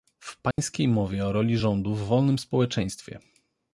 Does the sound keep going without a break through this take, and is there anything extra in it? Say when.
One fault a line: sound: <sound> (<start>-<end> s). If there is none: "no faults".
sound: dropout (0.5-0.6 s)